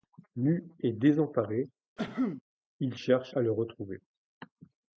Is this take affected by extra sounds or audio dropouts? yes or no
yes